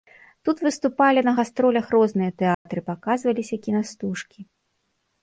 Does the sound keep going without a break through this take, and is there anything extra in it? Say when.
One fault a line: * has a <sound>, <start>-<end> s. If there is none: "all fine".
* has a dropout, 2.5-2.7 s